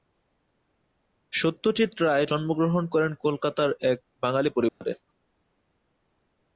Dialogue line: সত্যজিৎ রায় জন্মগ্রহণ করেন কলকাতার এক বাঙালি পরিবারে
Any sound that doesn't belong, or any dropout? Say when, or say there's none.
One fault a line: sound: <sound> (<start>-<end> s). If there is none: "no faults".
sound: dropout (4.7-4.8 s)